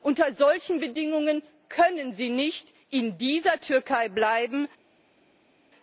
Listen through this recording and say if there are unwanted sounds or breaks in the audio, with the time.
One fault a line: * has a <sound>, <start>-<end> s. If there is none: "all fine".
all fine